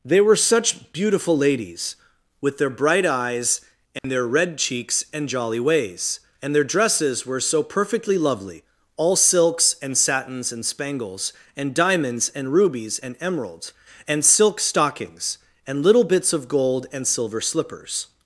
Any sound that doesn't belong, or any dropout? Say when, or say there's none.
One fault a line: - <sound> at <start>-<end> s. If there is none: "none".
- dropout at 4.0-4.0 s